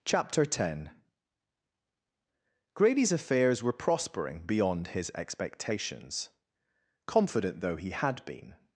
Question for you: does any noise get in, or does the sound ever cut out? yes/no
no